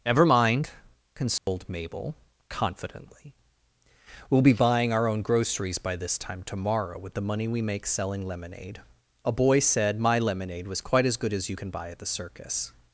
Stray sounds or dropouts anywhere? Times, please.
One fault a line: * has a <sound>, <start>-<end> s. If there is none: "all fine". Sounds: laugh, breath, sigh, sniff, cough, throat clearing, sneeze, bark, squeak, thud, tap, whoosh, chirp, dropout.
* has a dropout, 1.4-1.5 s